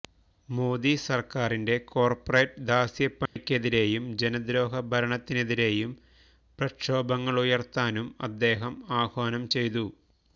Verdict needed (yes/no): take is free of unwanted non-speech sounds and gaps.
no